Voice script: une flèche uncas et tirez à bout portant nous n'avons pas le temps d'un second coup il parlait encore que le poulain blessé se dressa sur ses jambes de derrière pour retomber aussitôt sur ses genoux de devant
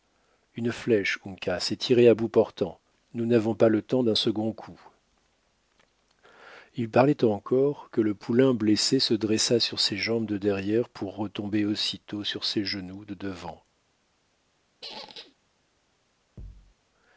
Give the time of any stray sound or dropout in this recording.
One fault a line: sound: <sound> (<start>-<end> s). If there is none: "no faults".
sound: squeak (14.8-15.4 s)
sound: thud (16.4-16.7 s)